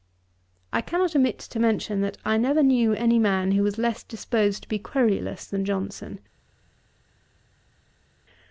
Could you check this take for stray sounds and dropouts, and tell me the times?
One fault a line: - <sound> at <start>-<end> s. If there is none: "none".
none